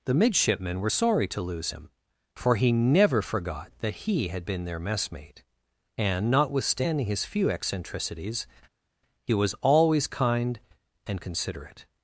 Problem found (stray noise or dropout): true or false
false